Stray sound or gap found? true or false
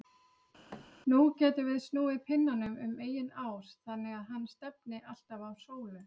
true